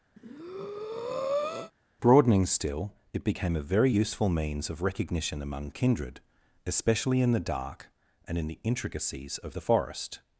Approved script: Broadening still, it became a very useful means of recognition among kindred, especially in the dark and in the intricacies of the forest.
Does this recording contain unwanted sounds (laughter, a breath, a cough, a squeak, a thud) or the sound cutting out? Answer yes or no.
yes